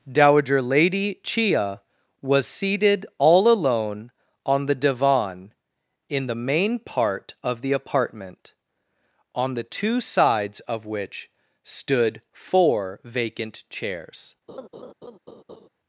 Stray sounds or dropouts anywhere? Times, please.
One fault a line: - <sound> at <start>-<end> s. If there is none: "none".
- laugh at 14.5-15.7 s